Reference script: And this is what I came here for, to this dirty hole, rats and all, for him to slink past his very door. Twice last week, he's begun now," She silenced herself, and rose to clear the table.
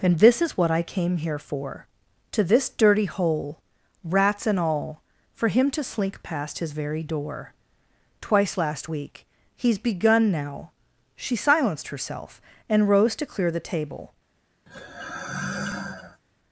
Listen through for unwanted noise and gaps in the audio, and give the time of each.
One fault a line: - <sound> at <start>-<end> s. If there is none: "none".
- sigh at 14.7-16.2 s